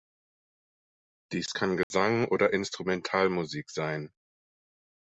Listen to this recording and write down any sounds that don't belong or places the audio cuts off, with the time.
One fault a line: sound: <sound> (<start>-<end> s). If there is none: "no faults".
sound: dropout (1.8-1.9 s)